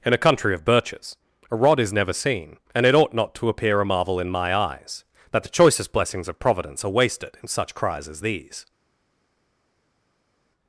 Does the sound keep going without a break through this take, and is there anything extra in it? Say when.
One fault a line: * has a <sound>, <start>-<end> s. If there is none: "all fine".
all fine